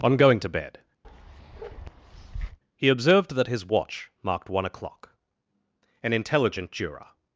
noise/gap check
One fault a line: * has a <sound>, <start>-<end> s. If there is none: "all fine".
* has a bark, 1.0-2.6 s